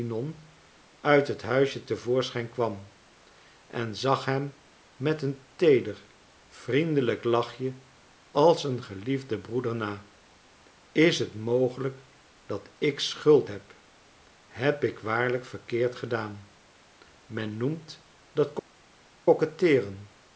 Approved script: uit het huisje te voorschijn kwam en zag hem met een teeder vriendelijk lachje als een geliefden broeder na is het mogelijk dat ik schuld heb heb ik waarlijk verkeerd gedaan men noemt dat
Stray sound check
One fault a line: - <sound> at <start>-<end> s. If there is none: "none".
none